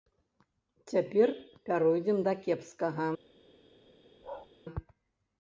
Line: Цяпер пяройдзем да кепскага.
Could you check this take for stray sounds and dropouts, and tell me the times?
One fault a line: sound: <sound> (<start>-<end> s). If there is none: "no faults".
sound: bark (4.2-4.5 s)